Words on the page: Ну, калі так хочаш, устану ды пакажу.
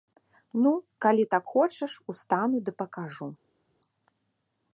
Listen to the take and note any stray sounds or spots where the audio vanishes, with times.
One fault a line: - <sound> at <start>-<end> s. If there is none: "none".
none